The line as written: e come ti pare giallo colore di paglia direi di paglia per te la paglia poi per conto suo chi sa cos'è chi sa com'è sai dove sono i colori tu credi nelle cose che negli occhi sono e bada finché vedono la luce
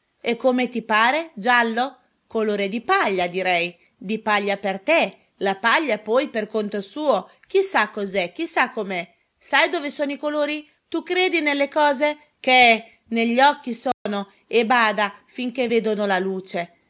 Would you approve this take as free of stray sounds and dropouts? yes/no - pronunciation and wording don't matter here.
no